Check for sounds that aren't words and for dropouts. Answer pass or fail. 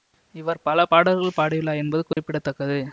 fail